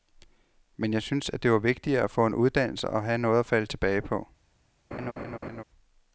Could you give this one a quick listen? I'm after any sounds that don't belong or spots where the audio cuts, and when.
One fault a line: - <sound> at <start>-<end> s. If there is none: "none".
- laugh at 4.9-5.6 s